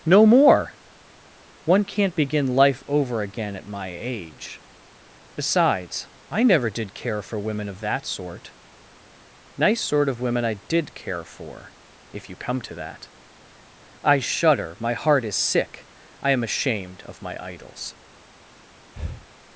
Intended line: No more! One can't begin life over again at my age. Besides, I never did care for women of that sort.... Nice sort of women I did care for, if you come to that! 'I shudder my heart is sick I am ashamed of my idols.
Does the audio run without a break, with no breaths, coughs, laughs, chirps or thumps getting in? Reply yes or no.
no